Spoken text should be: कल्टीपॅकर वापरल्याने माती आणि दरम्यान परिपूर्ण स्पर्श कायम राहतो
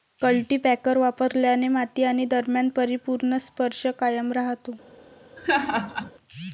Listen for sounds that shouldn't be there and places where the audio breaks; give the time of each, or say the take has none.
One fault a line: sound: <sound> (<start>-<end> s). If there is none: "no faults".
sound: laugh (5.4-6.1 s)